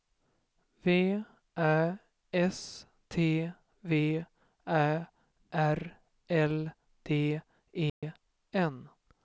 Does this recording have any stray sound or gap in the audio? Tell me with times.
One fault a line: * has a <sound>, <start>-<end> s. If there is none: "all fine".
* has a dropout, 7.9-8.0 s